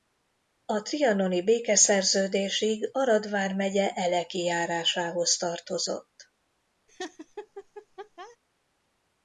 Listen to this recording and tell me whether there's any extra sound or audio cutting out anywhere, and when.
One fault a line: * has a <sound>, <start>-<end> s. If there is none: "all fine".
* has a laugh, 6.9-8.4 s